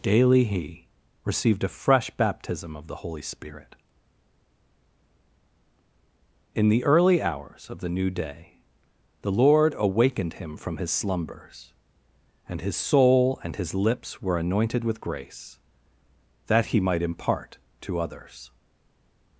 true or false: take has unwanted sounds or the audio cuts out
false